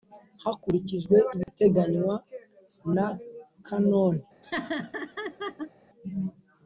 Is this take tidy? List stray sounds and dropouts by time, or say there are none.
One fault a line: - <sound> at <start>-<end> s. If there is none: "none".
- dropout at 1.4-1.5 s
- laugh at 4.4-5.7 s